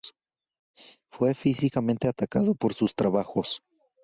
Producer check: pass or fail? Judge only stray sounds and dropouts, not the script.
pass